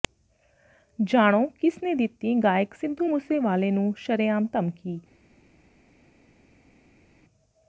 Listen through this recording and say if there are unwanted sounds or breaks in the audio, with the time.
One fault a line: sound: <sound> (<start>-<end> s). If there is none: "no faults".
no faults